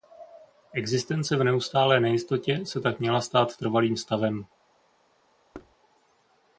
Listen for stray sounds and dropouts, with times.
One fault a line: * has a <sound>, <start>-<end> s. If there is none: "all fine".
* has a thud, 5.5-5.8 s